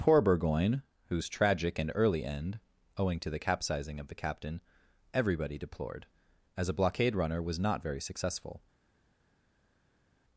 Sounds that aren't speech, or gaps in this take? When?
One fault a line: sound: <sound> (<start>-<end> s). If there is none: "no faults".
no faults